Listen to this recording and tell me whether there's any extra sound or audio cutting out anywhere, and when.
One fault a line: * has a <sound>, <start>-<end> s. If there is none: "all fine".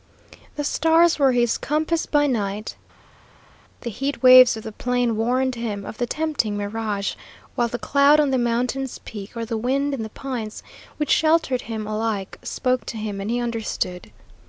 all fine